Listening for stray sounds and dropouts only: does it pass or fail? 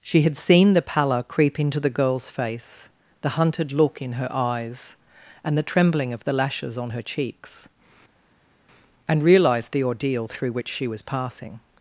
pass